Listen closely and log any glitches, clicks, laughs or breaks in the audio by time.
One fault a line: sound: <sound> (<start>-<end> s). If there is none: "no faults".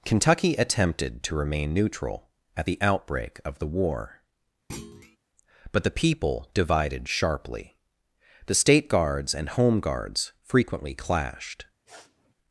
sound: thud (4.7-5.2 s)
sound: sniff (11.9-12.3 s)